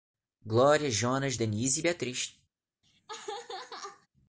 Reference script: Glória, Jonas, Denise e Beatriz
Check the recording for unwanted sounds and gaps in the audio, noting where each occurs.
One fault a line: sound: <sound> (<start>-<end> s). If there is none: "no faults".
sound: laugh (2.8-4.1 s)